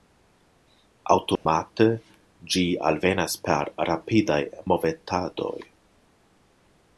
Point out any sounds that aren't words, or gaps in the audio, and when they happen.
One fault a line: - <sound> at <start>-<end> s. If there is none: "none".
- dropout at 1.4-1.5 s